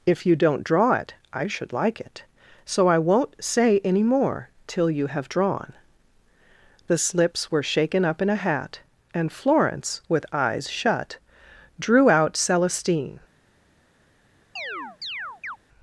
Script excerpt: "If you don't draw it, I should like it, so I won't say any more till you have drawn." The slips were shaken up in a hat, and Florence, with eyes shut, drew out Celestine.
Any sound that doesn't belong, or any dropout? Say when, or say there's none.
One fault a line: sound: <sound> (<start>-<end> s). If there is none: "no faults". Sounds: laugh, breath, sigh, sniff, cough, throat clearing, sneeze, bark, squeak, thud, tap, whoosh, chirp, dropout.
sound: chirp (14.6-15.6 s)